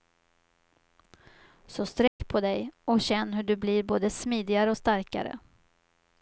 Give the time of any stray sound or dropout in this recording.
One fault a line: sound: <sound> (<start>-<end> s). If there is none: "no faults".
sound: dropout (2.1-2.2 s)